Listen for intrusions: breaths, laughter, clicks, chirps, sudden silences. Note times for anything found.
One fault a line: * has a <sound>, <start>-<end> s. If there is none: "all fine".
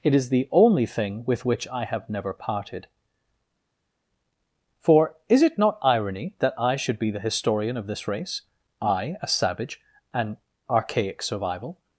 all fine